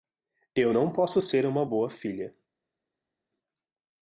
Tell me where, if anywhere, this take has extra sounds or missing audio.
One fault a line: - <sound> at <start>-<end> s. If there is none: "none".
none